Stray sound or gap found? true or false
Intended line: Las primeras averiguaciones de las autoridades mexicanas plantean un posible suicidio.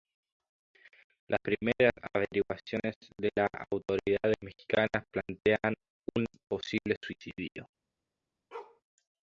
true